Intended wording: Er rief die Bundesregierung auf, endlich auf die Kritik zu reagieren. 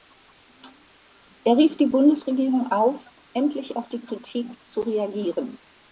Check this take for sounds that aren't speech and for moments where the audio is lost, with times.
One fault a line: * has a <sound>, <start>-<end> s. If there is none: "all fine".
all fine